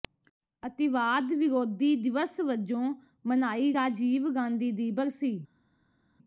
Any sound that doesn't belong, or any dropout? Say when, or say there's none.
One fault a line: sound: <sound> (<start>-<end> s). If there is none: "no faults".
no faults